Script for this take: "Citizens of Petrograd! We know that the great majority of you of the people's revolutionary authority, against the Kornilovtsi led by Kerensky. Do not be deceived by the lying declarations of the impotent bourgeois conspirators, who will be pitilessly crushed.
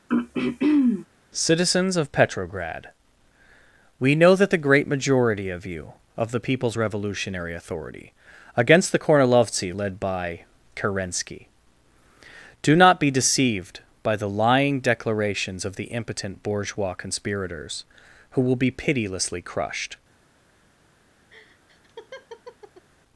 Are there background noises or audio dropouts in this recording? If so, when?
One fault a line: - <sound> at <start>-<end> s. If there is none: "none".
- throat clearing at 0.1-1.1 s
- laugh at 21.3-22.9 s